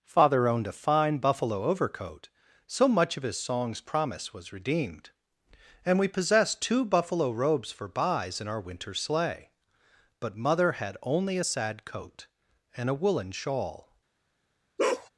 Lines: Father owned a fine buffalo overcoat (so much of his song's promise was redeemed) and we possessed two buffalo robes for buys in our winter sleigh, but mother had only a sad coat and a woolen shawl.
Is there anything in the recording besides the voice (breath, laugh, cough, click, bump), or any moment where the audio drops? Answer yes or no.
yes